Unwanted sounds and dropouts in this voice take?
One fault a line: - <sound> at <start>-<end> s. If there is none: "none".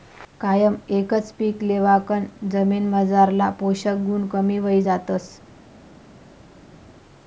none